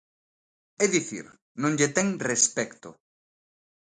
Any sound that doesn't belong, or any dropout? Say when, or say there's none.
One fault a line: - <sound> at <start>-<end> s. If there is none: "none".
none